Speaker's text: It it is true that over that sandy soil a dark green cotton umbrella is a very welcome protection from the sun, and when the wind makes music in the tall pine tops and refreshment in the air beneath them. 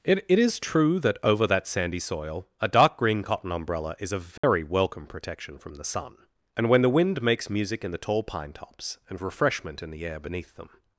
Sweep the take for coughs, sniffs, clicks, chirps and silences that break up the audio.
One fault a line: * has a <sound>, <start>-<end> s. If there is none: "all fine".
* has a dropout, 4.4-4.4 s